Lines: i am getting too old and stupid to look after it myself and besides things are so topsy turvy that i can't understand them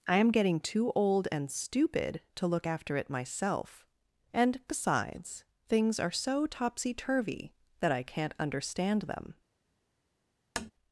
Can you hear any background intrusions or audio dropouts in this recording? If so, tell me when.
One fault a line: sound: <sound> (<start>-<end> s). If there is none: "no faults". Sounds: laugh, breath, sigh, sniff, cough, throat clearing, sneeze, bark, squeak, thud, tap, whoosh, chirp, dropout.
sound: tap (10.6-10.7 s)